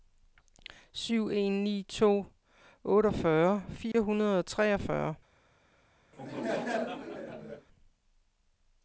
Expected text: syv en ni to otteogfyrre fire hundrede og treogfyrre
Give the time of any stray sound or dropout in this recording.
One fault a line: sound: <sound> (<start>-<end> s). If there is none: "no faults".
sound: dropout (3.9-3.9 s)
sound: laugh (6.1-7.7 s)